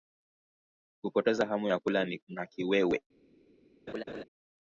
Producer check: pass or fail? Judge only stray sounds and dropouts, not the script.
fail